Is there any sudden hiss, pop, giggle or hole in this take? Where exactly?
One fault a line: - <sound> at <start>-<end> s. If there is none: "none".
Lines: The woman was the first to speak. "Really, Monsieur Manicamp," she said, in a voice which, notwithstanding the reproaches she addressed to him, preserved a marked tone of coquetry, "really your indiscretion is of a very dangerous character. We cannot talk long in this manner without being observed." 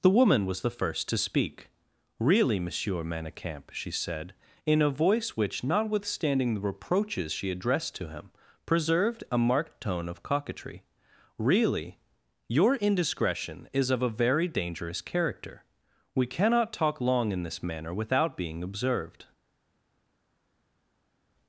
none